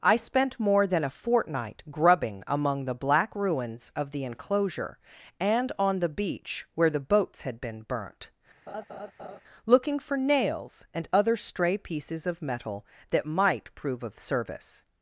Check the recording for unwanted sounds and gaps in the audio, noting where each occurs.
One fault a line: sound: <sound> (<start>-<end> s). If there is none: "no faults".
sound: laugh (8.7-9.4 s)